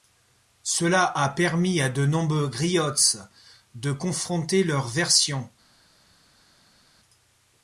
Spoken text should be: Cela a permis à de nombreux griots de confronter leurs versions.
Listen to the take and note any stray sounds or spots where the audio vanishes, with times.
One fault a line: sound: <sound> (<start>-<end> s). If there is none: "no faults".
no faults